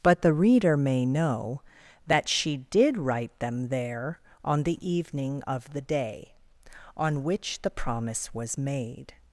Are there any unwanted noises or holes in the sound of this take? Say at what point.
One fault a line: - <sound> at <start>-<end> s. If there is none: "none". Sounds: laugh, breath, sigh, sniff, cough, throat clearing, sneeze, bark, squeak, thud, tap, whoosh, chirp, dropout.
none